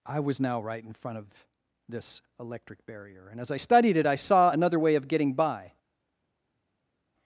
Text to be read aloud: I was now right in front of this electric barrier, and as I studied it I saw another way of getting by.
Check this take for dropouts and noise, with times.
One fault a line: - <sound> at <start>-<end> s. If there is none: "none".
none